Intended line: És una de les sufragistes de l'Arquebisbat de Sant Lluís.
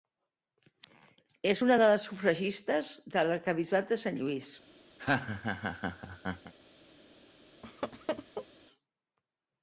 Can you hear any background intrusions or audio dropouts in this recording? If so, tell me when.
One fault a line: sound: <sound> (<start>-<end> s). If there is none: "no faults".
sound: laugh (5.0-6.5 s)
sound: laugh (7.6-8.5 s)